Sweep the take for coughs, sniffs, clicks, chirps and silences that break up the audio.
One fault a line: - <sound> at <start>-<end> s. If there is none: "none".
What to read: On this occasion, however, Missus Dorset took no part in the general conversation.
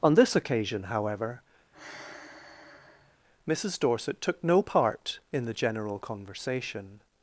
- sigh at 1.7-3.2 s